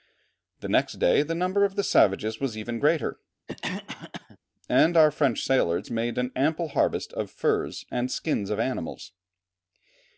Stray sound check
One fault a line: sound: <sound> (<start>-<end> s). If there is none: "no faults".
sound: cough (3.5-4.4 s)